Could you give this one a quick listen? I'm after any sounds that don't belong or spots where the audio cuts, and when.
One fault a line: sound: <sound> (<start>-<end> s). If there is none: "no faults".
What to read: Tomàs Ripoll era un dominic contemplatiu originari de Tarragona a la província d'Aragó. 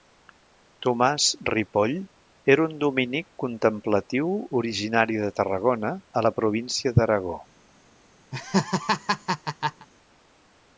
sound: laugh (8.3-9.9 s)